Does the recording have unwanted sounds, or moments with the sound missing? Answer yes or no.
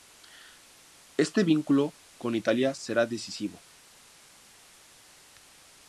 no